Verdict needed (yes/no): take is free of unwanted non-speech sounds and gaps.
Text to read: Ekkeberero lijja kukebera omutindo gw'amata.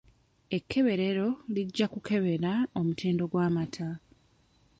yes